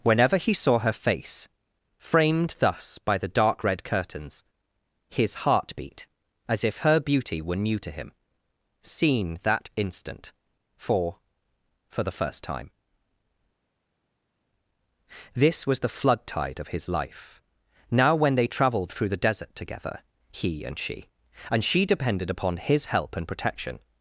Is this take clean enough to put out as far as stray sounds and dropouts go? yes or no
yes